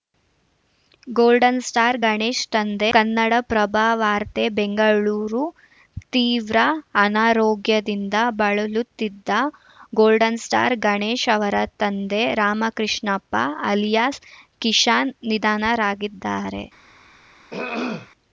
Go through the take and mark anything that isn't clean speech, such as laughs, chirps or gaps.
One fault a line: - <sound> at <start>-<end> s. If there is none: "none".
- throat clearing at 17.5-18.1 s